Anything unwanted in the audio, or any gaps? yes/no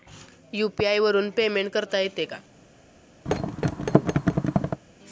yes